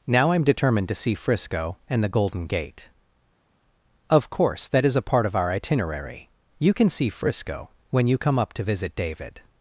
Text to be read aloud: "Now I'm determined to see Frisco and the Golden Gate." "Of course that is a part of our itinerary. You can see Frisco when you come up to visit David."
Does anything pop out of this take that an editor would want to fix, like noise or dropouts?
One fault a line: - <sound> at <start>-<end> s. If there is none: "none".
none